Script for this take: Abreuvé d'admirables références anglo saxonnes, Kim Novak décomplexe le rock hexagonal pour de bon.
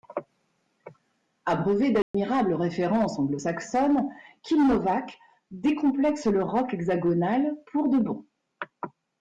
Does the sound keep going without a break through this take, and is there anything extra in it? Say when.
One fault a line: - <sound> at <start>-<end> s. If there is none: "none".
- dropout at 2.0-2.1 s